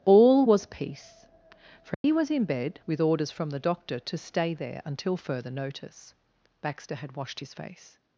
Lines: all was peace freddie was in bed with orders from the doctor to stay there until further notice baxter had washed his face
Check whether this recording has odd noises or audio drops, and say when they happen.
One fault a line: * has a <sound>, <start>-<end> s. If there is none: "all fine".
* has a dropout, 1.9-2.0 s